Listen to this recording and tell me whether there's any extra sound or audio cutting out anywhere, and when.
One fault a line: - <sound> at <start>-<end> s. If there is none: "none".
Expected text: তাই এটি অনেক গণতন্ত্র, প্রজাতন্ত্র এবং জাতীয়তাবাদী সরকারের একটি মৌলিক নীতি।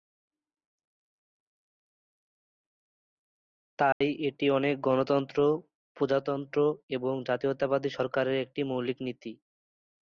- dropout at 3.9-4.0 s